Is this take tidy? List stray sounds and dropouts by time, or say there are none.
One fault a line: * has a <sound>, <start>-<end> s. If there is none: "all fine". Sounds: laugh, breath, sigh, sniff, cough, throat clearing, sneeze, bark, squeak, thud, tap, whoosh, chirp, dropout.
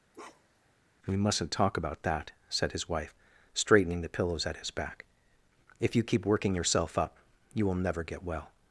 * has a bark, 0.1-0.7 s